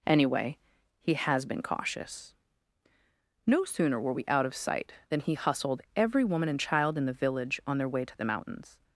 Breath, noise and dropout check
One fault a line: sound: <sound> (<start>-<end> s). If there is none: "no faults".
no faults